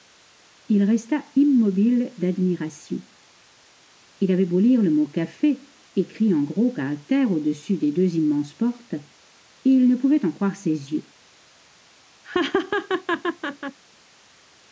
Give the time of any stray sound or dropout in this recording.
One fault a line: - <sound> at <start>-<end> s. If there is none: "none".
- laugh at 12.2-13.8 s